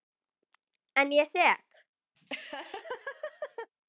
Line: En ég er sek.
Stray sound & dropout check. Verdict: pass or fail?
fail